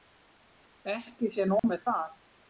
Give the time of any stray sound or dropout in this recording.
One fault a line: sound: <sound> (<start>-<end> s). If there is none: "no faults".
sound: dropout (1.6-1.6 s)